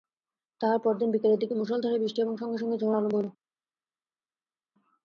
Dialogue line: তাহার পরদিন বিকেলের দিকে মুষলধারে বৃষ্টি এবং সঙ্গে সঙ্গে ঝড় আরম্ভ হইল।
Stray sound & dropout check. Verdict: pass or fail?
pass